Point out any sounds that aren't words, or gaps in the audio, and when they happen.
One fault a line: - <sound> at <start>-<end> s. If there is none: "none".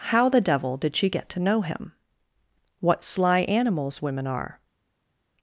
none